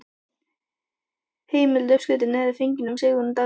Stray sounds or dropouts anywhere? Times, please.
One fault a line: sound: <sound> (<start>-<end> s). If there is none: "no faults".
no faults